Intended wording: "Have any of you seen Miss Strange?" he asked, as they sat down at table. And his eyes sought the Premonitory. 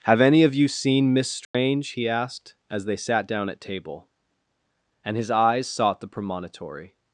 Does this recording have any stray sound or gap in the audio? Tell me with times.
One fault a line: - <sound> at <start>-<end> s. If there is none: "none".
- dropout at 1.4-1.5 s